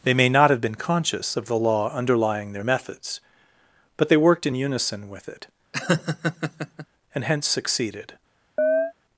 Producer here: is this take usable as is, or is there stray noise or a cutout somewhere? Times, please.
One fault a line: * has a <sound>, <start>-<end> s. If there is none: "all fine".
* has a laugh, 5.7-6.9 s
* has a chirp, 8.6-8.9 s